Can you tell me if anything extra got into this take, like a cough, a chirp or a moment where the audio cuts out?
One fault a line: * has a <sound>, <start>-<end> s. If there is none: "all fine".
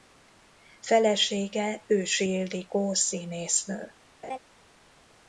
* has a laugh, 4.2-4.4 s